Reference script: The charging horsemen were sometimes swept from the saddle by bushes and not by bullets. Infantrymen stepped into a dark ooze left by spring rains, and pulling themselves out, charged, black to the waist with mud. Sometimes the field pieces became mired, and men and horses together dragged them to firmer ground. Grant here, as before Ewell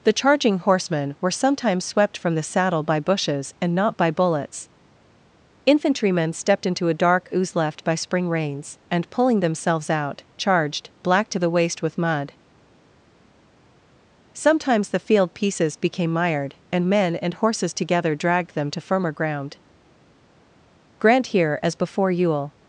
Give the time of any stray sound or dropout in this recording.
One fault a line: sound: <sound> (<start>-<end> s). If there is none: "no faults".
no faults